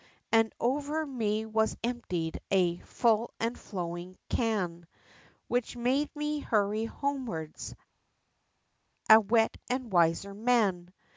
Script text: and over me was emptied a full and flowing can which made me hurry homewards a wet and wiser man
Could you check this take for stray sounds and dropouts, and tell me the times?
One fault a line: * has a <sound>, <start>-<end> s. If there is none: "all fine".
all fine